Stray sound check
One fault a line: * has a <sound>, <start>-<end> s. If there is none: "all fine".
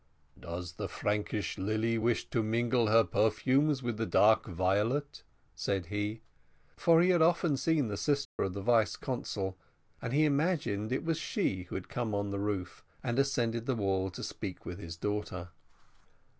* has a dropout, 8.2-8.4 s